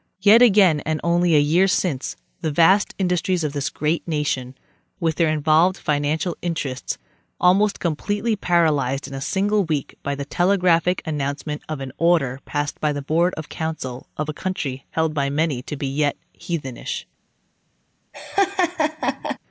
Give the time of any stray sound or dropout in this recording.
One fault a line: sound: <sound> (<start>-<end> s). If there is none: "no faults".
sound: laugh (18.1-19.4 s)